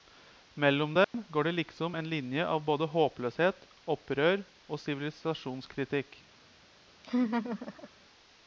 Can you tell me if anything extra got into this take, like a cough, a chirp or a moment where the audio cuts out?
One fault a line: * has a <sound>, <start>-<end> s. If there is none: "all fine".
* has a dropout, 1.0-1.1 s
* has a laugh, 7.0-7.9 s